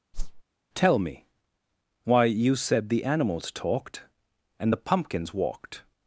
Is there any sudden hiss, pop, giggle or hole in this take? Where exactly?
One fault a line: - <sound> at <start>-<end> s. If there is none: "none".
- whoosh at 0.1-0.4 s